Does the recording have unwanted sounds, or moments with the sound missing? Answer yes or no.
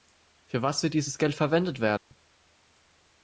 yes